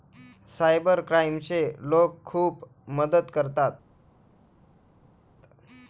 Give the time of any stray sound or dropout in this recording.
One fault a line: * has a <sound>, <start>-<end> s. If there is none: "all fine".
all fine